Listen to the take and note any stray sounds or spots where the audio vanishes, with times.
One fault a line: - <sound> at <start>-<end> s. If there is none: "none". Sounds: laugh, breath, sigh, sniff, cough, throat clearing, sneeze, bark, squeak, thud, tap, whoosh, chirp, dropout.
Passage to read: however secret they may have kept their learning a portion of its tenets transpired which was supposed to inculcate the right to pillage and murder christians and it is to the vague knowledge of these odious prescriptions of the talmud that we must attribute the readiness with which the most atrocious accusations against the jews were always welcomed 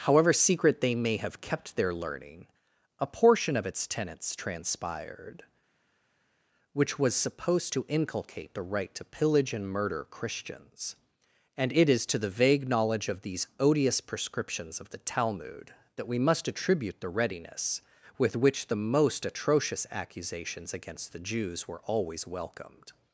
none